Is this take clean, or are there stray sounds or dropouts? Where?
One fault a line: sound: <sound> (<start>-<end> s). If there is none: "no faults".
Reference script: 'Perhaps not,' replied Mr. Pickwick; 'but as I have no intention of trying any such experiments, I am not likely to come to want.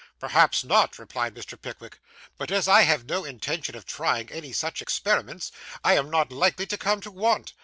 no faults